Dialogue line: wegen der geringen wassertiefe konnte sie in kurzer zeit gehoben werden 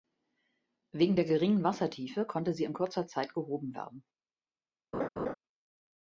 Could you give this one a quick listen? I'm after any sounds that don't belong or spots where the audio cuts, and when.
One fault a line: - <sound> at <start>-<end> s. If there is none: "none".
- laugh at 4.9-5.3 s